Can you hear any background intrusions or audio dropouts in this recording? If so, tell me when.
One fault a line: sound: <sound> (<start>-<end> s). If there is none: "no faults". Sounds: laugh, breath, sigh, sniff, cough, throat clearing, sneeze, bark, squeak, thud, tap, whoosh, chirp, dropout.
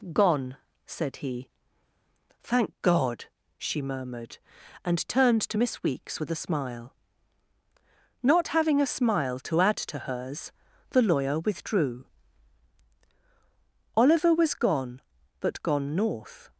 no faults